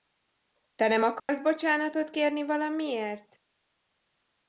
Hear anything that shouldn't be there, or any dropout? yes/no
yes